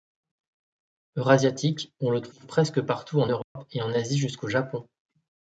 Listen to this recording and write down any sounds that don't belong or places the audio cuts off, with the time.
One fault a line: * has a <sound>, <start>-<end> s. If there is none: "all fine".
* has a dropout, 3.4-3.6 s